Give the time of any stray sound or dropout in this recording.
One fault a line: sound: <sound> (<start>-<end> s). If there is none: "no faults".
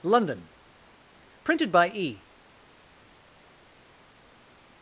no faults